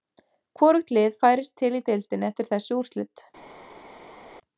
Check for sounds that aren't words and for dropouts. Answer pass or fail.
pass